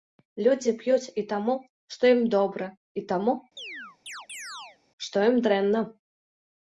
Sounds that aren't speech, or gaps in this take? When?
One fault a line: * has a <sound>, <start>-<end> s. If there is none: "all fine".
* has a chirp, 3.6-4.8 s